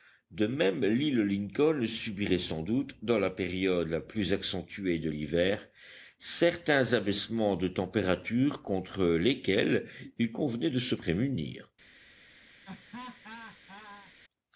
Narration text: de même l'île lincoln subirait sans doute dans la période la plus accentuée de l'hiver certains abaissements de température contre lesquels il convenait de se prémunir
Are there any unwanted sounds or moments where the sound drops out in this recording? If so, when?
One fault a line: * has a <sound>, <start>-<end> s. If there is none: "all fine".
* has a laugh, 12.6-14.1 s